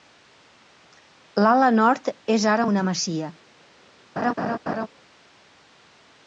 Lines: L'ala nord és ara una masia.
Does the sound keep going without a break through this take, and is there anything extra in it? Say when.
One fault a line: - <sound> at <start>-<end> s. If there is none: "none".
- laugh at 4.2-4.9 s